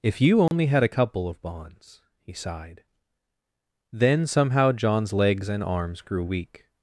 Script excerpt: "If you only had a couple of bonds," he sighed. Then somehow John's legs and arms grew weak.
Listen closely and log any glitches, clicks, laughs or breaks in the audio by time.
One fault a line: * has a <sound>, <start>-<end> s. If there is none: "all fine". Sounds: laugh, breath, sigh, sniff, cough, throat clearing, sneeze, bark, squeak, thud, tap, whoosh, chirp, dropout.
* has a dropout, 0.5-0.5 s